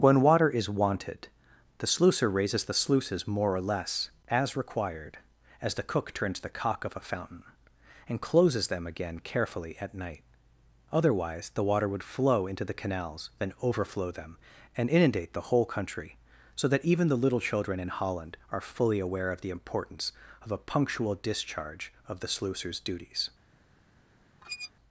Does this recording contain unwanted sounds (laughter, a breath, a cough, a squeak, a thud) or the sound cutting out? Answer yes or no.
yes